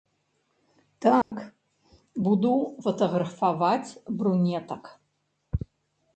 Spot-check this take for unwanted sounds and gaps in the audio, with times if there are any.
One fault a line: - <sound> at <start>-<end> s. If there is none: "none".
- dropout at 1.2-1.3 s